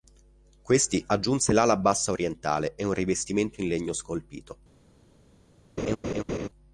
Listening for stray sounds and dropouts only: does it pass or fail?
fail